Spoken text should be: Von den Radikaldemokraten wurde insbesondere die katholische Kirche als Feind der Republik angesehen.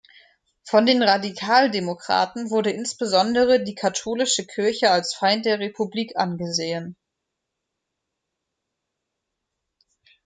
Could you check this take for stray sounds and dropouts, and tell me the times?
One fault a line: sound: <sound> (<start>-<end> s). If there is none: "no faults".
no faults